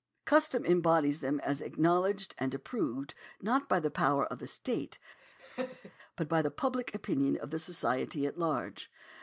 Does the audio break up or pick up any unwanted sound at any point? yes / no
yes